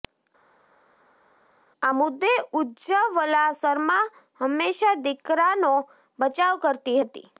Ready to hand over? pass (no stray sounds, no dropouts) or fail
pass